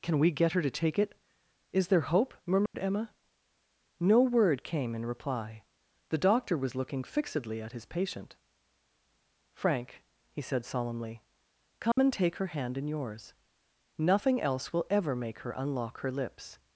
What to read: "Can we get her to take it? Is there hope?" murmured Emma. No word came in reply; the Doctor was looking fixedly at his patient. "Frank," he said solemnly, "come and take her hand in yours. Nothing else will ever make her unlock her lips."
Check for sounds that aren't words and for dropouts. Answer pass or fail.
fail